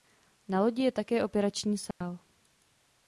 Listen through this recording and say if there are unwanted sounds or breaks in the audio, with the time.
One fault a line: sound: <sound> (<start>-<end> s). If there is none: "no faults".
sound: dropout (1.9-2.0 s)